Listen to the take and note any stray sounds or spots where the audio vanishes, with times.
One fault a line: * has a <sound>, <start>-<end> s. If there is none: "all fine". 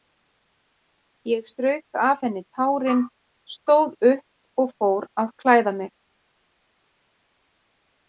all fine